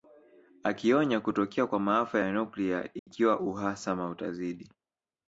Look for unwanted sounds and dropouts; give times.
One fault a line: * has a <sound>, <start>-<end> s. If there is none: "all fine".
* has a dropout, 3.0-3.1 s